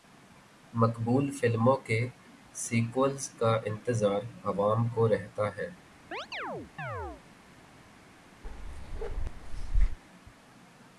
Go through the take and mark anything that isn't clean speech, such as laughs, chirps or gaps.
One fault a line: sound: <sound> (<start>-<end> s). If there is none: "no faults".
sound: chirp (6.1-7.2 s)
sound: bark (8.4-10.0 s)